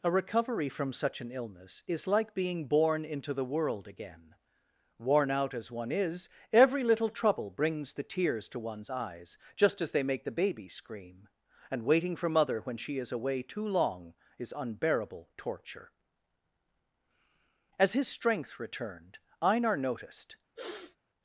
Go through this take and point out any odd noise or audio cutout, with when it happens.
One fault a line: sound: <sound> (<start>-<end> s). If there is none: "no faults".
sound: sniff (20.6-21.0 s)